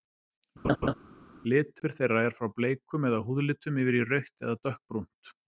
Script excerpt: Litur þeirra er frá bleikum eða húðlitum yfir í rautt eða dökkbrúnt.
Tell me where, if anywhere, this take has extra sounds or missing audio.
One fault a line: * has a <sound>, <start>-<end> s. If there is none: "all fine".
* has a laugh, 0.6-0.9 s